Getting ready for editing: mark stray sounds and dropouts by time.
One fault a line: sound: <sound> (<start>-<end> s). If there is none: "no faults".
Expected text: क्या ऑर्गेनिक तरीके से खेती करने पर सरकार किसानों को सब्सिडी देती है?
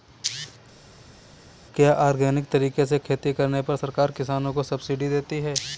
no faults